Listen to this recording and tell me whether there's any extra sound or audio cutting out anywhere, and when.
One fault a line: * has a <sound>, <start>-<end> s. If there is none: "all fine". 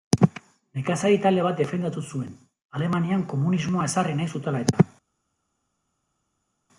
all fine